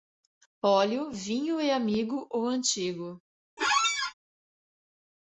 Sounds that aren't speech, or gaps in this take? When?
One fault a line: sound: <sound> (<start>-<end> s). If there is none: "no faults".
sound: squeak (3.6-4.1 s)